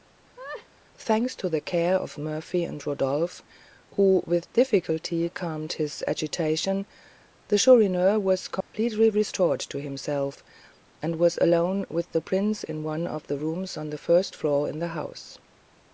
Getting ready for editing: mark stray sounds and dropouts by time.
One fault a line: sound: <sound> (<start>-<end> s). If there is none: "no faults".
sound: laugh (0.4-0.7 s)
sound: dropout (8.6-8.7 s)